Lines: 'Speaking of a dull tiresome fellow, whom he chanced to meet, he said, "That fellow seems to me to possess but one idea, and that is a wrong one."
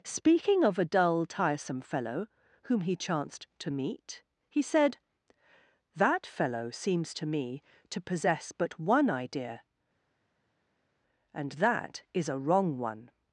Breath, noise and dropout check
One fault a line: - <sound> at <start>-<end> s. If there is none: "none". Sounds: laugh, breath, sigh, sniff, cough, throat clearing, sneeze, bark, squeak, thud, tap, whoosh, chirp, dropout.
none